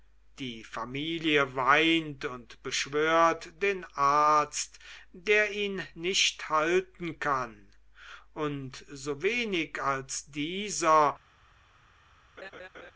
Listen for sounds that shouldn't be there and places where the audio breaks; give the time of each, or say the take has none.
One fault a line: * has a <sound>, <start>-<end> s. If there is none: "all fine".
* has a laugh, 12.4-12.9 s